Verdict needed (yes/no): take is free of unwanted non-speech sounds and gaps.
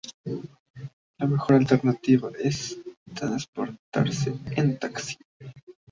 yes